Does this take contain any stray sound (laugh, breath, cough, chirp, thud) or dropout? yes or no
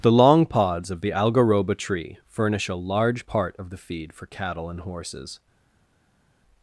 no